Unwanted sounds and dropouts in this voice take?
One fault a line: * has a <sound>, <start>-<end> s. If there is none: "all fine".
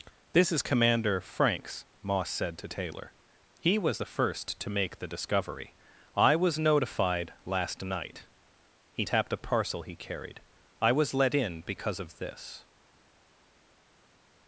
all fine